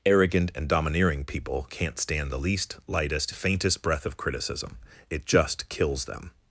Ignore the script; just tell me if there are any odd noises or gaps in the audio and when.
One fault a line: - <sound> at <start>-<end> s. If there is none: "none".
none